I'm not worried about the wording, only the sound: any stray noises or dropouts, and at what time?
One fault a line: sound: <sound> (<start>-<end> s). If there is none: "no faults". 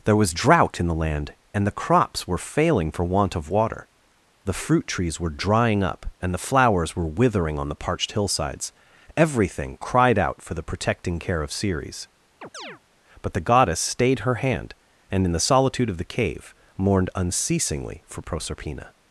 sound: chirp (12.4-12.8 s)